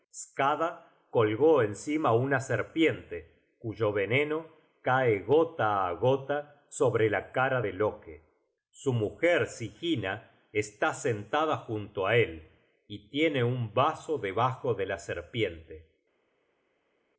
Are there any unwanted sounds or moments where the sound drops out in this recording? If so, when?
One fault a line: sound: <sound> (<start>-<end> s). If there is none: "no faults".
no faults